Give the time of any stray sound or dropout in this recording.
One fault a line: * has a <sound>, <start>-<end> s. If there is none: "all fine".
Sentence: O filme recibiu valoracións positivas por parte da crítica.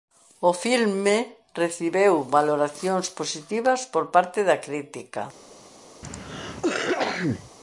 * has a cough, 6.0-7.5 s